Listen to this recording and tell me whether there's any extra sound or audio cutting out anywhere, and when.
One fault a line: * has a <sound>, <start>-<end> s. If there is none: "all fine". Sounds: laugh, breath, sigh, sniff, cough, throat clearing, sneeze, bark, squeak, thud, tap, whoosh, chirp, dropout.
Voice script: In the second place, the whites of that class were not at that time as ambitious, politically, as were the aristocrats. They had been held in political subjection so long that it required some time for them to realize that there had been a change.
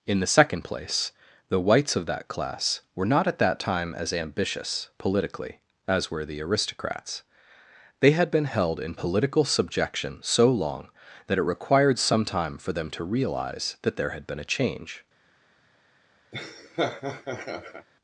* has a laugh, 16.3-17.9 s